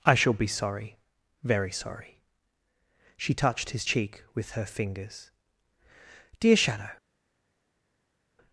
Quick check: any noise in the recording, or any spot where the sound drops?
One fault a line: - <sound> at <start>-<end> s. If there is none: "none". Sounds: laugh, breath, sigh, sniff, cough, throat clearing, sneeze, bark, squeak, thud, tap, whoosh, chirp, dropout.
none